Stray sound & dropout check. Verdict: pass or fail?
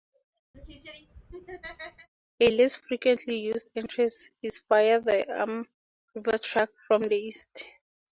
fail